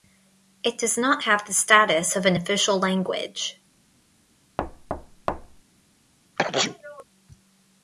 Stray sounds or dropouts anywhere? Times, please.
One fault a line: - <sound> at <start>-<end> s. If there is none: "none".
- thud at 4.6-5.6 s
- sneeze at 6.4-7.0 s